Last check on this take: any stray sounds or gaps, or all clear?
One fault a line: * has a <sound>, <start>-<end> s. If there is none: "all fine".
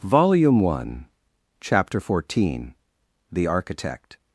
all fine